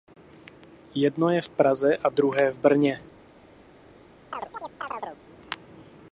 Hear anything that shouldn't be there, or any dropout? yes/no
yes